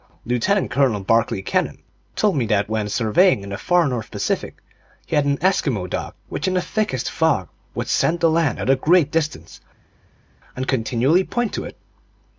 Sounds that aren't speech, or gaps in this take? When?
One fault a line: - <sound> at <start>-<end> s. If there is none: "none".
none